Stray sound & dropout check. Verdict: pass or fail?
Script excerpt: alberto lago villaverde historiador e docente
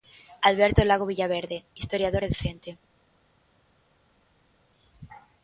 pass